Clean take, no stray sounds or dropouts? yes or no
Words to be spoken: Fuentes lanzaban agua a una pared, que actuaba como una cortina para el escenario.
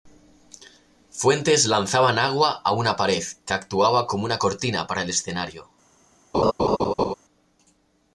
no